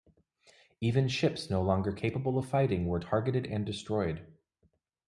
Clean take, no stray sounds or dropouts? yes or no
yes